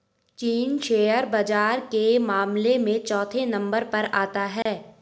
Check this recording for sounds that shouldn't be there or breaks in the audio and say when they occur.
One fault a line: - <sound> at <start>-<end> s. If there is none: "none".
- dropout at 4.6-4.7 s